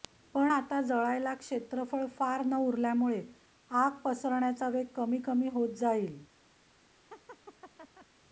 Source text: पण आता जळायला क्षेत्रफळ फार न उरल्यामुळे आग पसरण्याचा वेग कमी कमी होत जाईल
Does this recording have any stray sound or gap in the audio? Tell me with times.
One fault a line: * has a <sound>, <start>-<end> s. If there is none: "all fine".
* has a laugh, 7.1-8.1 s